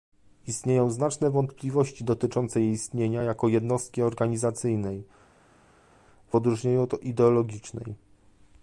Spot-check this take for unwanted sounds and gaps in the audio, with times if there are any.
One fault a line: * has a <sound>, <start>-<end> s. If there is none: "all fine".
all fine